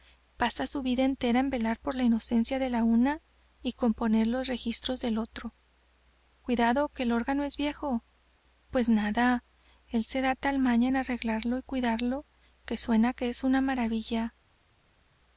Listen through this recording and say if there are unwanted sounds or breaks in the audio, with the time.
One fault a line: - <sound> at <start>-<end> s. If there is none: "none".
none